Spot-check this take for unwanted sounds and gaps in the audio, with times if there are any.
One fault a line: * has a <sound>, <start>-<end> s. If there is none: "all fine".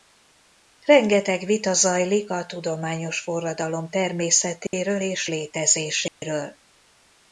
* has a dropout, 4.7-4.7 s
* has a dropout, 6.1-6.2 s